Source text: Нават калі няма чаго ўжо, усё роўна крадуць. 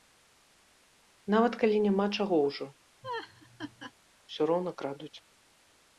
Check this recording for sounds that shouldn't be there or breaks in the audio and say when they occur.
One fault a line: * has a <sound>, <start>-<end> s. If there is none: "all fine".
* has a laugh, 3.0-3.9 s